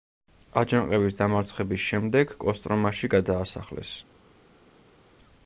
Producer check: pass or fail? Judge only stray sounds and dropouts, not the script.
pass